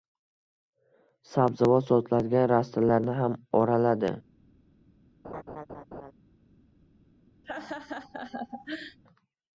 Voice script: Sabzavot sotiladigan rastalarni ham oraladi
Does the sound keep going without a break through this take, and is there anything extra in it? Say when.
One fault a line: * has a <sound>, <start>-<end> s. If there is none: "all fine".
* has a laugh, 5.2-6.1 s
* has a laugh, 7.4-9.0 s